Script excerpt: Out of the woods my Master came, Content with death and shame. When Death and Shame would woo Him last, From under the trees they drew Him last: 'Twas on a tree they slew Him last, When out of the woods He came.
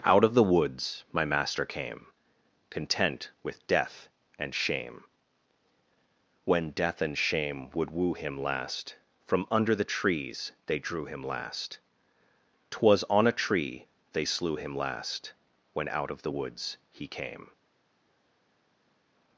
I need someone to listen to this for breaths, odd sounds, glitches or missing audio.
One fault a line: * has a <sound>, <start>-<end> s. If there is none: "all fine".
all fine